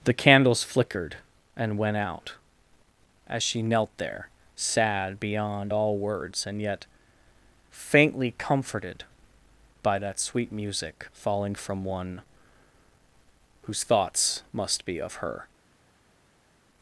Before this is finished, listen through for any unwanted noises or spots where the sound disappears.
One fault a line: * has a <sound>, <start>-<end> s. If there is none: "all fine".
all fine